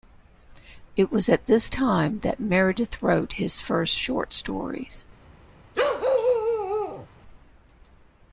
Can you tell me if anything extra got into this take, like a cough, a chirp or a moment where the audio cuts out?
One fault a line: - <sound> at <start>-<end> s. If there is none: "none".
- bark at 5.7-7.1 s